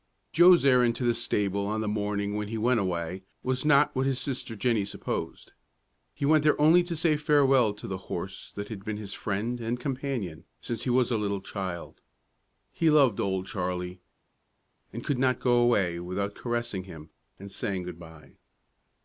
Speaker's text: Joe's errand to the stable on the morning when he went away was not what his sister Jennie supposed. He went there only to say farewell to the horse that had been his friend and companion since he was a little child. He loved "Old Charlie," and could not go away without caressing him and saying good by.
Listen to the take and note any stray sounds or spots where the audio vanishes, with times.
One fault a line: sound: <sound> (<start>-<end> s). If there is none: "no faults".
no faults